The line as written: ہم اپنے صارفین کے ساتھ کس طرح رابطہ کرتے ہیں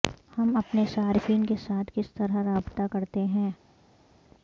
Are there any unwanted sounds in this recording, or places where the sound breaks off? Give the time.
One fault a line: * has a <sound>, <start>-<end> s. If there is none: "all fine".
all fine